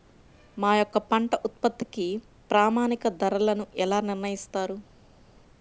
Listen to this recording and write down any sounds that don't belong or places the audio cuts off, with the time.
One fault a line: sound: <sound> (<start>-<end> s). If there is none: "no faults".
no faults